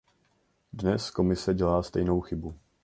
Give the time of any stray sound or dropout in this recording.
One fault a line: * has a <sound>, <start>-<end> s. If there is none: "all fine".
all fine